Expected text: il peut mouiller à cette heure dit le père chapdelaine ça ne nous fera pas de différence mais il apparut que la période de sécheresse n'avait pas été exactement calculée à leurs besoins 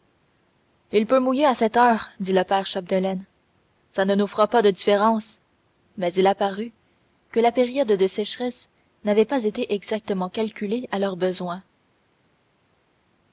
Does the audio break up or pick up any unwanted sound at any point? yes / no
no